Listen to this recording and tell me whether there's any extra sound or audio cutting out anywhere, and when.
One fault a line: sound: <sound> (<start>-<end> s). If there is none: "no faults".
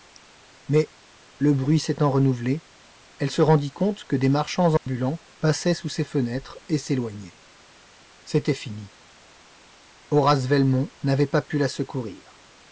sound: dropout (4.8-4.9 s)